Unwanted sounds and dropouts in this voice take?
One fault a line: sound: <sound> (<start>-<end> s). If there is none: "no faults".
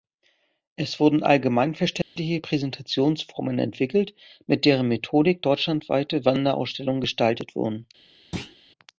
sound: dropout (2.0-2.2 s)
sound: thud (8.3-8.6 s)